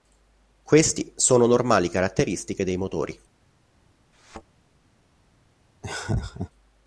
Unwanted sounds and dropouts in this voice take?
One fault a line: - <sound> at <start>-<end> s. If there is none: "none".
- thud at 4.1-4.4 s
- laugh at 5.8-6.5 s